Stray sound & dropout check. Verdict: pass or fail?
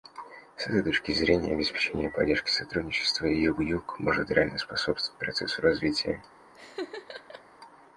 fail